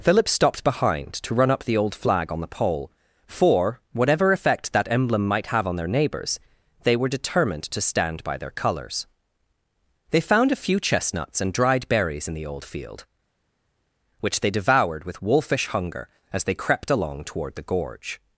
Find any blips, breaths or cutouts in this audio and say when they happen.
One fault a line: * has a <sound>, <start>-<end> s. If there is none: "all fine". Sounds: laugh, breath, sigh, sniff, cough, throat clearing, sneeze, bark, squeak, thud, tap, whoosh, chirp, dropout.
all fine